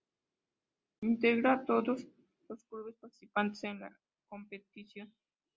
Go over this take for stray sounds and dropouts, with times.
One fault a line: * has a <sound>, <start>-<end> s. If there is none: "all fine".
all fine